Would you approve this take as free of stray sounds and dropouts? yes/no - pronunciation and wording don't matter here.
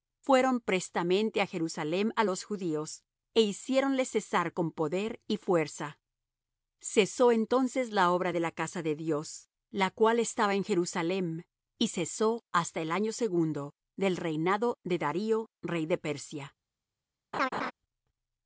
no